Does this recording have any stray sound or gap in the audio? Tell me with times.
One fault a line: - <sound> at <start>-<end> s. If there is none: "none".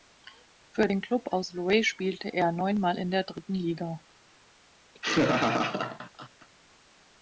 - laugh at 4.9-6.5 s